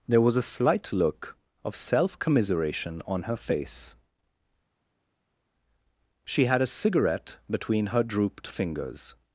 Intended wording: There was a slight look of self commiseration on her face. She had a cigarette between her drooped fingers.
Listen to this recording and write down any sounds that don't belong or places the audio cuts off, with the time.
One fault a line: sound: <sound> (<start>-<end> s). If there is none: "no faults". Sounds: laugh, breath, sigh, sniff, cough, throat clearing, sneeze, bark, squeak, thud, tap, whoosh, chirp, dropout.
no faults